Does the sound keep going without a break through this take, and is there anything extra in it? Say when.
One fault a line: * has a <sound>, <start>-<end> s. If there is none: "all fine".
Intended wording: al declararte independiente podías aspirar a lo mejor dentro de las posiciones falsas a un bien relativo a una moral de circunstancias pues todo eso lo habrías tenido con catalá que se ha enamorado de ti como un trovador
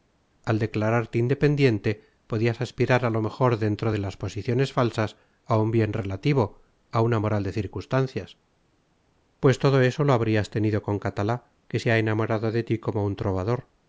all fine